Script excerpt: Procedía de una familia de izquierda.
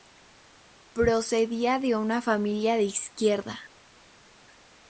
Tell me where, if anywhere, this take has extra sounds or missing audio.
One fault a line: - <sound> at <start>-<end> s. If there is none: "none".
none